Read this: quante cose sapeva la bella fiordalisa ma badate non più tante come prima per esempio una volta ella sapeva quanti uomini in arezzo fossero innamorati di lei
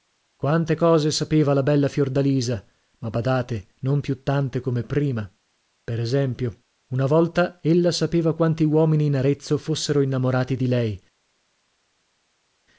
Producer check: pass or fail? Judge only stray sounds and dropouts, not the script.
pass